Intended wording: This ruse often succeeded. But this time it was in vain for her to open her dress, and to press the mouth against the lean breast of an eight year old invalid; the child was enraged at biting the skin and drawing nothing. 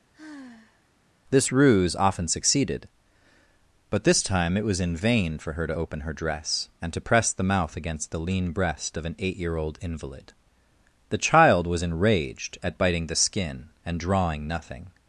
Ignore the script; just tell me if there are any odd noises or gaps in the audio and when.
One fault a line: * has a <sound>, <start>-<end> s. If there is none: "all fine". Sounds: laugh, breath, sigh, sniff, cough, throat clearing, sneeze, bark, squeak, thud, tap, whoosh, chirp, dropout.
* has a sigh, 0.1-0.9 s